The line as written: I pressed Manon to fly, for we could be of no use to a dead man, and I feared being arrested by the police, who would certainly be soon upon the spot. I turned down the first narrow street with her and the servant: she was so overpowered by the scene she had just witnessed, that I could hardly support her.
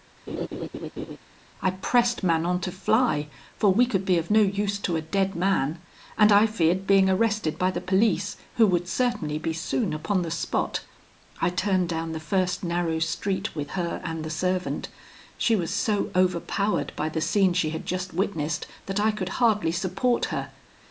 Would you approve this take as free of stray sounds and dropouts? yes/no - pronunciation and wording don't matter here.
no